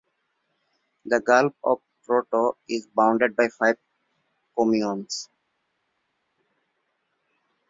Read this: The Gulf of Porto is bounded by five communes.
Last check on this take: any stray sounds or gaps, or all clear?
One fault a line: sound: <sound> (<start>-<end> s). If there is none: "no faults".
no faults